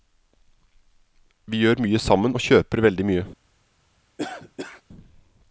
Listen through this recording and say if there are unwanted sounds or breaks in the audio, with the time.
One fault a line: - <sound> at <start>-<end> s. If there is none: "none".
- cough at 4.2-4.8 s